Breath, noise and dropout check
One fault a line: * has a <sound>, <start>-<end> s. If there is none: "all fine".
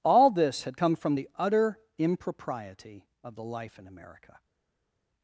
all fine